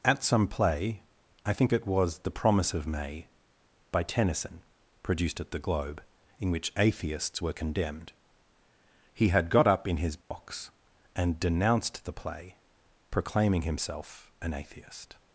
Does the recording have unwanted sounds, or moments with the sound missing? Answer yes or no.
yes